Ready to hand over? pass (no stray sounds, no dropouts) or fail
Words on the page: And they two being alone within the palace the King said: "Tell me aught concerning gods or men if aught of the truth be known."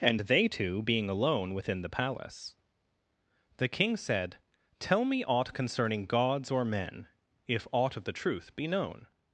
pass